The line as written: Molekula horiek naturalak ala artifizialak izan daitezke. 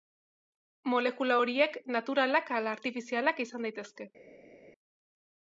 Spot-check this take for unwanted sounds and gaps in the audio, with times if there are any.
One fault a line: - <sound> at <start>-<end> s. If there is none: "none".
none